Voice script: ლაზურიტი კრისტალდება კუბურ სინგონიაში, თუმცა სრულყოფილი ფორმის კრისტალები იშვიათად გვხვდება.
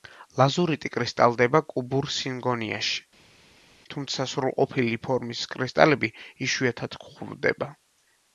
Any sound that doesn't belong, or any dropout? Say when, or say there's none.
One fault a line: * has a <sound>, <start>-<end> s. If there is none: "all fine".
all fine